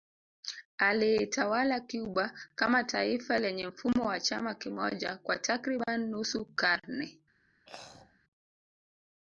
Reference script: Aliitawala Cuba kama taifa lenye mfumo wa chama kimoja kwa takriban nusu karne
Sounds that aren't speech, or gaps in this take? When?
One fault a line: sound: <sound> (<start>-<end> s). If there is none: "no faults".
sound: throat clearing (7.7-8.2 s)